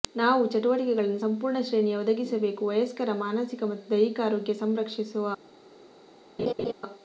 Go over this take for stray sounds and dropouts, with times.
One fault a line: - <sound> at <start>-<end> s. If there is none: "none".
- laugh at 6.4-6.7 s